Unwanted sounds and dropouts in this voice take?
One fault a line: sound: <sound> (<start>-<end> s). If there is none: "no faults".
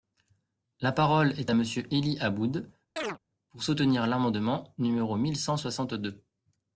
sound: chirp (3.0-3.2 s)